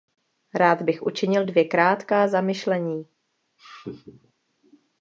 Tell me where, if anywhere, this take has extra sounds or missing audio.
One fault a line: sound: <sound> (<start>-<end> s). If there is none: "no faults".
sound: laugh (3.6-4.3 s)